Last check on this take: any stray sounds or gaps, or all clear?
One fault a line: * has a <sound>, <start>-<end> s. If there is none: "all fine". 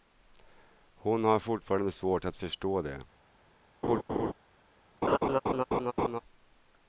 * has a laugh, 3.8-4.3 s
* has a laugh, 5.0-6.2 s